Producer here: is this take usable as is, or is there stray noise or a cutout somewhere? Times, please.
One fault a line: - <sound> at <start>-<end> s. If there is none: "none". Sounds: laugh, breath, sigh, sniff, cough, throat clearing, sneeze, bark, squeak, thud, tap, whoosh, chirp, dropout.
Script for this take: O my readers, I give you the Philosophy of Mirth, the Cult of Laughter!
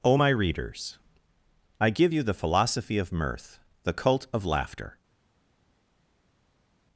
none